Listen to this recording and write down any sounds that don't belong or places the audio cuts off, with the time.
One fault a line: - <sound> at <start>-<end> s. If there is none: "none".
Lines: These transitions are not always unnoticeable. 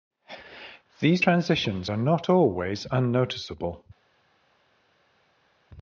none